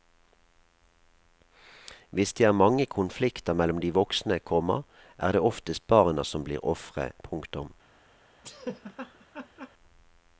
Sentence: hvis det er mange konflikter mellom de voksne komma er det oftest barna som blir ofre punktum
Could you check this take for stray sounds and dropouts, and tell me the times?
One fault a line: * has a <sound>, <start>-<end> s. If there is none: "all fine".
* has a laugh, 8.4-9.7 s